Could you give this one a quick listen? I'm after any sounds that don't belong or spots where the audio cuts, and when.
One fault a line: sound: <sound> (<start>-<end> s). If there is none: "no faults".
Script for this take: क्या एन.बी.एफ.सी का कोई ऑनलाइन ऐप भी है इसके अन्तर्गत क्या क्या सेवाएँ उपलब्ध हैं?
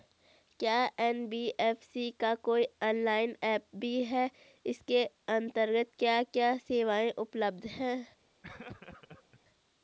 sound: laugh (8.4-9.4 s)